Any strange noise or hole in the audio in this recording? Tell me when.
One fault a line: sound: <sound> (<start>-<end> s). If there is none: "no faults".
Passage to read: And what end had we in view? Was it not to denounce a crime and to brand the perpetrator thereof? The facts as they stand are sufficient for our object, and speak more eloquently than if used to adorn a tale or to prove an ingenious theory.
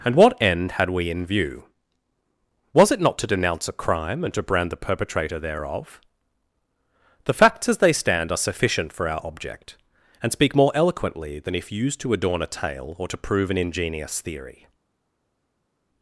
no faults